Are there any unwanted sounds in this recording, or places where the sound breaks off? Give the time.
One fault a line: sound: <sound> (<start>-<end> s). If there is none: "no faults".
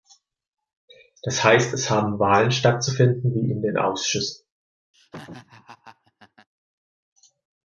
sound: laugh (4.9-6.5 s)